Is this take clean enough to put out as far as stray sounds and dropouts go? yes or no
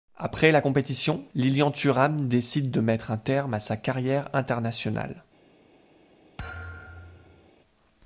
no